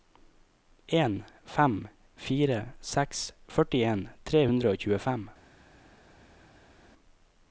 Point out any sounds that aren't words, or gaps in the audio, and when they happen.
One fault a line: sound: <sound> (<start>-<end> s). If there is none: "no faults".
no faults